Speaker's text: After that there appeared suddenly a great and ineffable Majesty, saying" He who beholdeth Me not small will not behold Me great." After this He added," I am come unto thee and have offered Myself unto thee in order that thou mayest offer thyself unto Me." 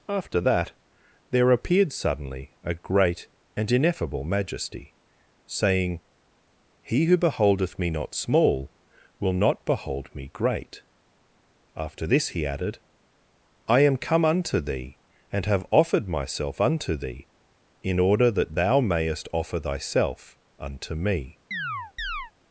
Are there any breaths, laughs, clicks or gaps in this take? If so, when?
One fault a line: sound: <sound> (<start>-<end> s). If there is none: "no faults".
sound: chirp (21.5-22.3 s)